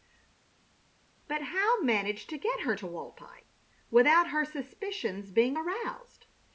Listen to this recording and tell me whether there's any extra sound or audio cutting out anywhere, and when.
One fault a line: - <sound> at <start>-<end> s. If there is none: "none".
none